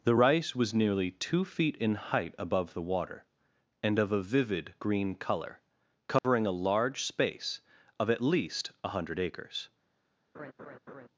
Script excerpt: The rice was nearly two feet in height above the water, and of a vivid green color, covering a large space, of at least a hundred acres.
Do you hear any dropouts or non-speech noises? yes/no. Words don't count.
yes